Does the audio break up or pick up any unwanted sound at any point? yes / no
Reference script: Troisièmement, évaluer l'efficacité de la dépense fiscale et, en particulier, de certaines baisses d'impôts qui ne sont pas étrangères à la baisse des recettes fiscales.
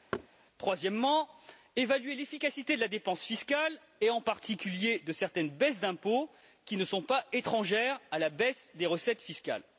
yes